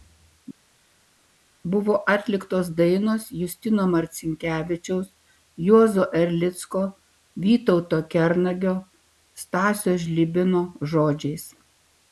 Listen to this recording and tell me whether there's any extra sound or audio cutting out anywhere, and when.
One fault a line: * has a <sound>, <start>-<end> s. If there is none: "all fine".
all fine